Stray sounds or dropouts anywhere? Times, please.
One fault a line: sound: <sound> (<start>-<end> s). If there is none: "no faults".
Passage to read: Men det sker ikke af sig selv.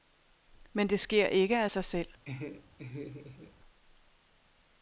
sound: laugh (2.3-3.5 s)